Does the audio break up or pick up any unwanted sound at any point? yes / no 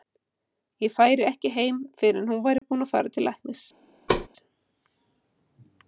yes